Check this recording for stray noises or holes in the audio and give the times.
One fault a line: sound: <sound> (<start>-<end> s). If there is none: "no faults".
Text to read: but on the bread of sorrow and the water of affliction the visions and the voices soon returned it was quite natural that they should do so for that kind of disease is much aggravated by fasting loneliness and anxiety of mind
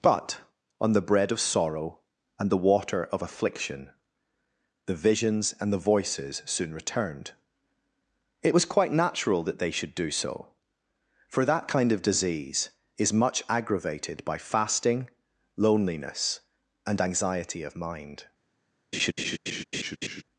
sound: laugh (18.9-20.2 s)